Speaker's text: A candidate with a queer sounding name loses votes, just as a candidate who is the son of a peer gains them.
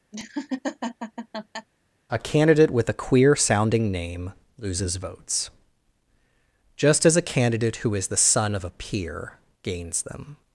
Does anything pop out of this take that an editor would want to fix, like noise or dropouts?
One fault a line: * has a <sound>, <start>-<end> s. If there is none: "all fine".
* has a laugh, 0.1-1.7 s